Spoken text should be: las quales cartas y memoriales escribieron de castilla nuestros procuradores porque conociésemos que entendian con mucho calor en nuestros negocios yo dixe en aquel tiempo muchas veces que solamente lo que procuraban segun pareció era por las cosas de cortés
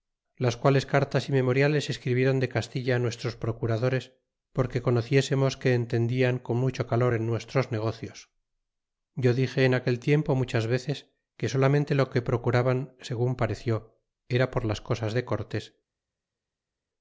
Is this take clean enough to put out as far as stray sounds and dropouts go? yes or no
yes